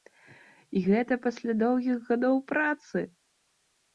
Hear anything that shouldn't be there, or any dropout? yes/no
no